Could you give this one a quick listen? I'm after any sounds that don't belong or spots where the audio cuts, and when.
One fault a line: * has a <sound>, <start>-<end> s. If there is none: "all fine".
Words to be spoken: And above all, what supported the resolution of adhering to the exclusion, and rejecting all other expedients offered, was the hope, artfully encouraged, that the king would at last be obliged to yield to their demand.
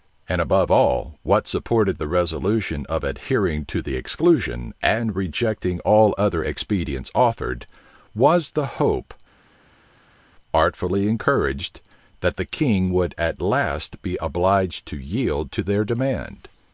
all fine